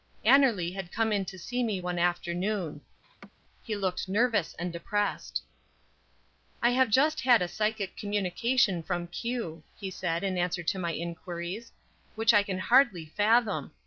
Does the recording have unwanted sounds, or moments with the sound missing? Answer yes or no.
yes